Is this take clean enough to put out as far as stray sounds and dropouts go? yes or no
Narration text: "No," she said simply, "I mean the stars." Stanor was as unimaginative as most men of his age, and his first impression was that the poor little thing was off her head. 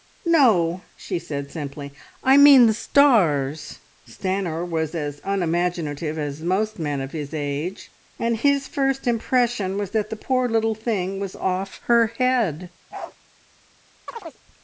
no